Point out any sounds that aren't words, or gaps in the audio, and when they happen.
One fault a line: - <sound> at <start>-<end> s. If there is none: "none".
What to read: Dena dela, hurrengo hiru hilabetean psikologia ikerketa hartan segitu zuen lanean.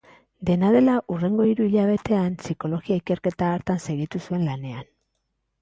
none